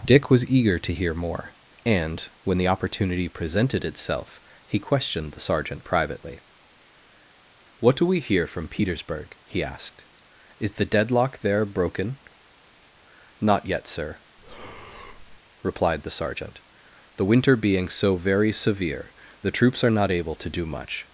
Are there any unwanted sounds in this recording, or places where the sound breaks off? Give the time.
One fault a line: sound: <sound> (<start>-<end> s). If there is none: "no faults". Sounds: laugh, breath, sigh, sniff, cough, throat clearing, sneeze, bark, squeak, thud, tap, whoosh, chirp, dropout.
sound: breath (14.4-15.4 s)